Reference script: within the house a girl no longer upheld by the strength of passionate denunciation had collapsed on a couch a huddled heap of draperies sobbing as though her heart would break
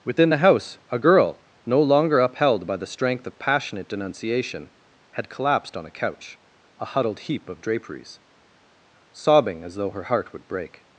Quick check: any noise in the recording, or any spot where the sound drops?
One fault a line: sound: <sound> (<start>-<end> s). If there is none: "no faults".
no faults